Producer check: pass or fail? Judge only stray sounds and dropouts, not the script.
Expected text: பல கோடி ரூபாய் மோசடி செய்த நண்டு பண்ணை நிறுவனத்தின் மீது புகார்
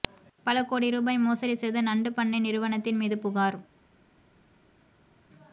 pass